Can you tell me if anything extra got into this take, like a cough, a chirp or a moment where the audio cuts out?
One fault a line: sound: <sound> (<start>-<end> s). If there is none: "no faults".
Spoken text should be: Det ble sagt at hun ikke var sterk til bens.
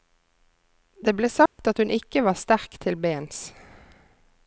sound: dropout (1.5-1.6 s)